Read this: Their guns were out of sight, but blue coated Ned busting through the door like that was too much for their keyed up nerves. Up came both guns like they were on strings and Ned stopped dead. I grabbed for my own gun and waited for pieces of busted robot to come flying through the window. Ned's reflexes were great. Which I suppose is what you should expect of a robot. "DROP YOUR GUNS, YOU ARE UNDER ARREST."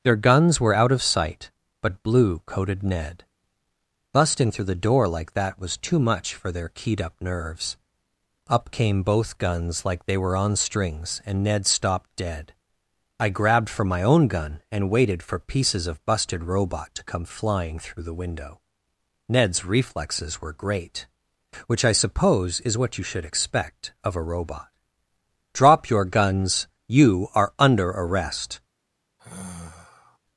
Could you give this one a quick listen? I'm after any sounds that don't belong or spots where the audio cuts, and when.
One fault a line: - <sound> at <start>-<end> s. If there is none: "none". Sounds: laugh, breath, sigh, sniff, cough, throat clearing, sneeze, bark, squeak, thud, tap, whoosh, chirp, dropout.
- sigh at 29.2-30.2 s